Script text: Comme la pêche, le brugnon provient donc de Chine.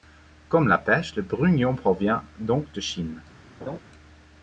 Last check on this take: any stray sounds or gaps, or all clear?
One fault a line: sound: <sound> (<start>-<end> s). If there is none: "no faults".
sound: laugh (3.6-3.8 s)